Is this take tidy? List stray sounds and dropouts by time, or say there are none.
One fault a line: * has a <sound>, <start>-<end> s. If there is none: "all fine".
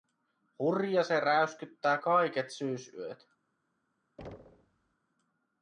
* has a thud, 4.2-5.0 s